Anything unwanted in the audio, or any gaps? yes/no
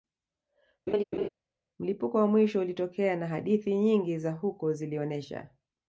yes